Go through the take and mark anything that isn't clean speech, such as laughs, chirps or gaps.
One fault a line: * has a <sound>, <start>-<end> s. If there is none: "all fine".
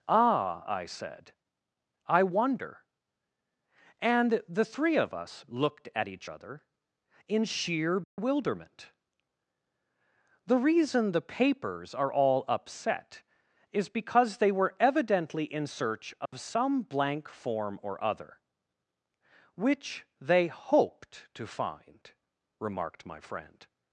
* has a dropout, 8.0-8.2 s
* has a dropout, 16.3-16.3 s